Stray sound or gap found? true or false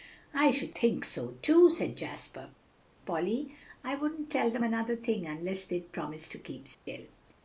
true